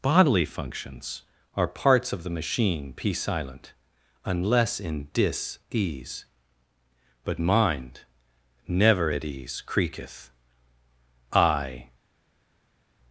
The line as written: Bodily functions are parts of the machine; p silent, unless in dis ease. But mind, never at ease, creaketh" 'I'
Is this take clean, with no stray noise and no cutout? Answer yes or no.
yes